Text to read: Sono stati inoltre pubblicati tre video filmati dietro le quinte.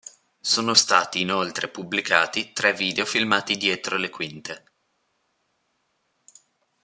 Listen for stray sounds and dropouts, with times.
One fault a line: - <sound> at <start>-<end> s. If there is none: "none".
none